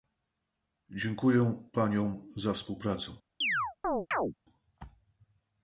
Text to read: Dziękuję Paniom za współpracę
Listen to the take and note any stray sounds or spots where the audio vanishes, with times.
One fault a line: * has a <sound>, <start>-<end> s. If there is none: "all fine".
* has a chirp, 3.4-4.3 s